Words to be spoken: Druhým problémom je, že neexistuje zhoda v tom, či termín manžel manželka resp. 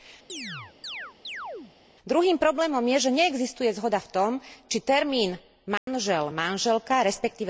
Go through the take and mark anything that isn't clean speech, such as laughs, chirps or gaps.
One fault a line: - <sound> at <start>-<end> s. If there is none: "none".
- chirp at 0.3-1.7 s
- dropout at 5.8-5.9 s